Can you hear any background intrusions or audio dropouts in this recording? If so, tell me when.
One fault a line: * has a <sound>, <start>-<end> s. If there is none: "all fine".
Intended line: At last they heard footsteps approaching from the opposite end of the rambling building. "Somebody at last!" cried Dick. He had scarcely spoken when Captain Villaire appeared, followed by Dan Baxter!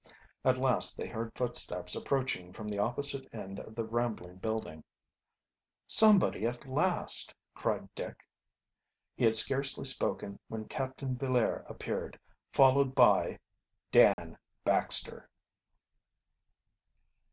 * has a dropout, 14.1-14.2 s